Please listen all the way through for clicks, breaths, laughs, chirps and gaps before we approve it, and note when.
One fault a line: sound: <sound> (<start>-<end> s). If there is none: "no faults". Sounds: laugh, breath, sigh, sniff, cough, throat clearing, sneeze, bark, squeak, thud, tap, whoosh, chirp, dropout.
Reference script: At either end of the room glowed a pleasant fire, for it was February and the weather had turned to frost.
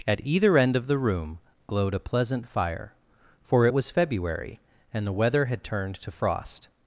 no faults